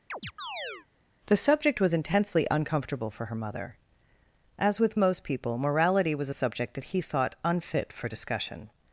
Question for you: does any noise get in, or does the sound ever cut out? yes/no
yes